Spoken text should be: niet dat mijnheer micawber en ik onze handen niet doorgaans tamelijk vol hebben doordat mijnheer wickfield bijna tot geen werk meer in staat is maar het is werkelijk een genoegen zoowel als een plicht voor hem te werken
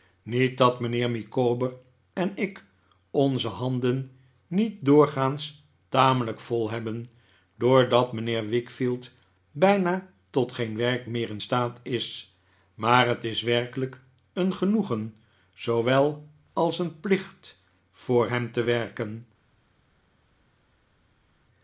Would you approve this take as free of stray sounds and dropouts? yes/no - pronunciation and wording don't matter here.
yes